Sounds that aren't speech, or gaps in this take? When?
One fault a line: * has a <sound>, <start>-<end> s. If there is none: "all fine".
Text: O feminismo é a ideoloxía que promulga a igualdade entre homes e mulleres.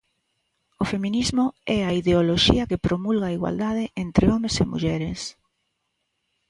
all fine